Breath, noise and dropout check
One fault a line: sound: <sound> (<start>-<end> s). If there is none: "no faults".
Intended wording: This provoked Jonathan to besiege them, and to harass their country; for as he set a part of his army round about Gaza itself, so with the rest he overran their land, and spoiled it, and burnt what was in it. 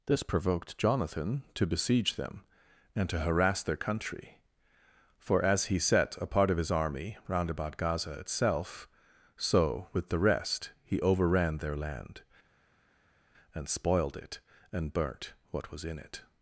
no faults